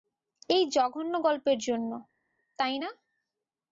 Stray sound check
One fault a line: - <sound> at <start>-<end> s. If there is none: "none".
none